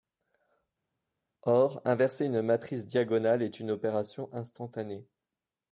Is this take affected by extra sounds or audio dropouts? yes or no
no